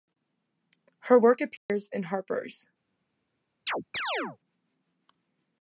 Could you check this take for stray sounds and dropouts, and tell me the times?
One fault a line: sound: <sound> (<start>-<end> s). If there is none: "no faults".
sound: dropout (1.6-1.7 s)
sound: chirp (3.7-4.4 s)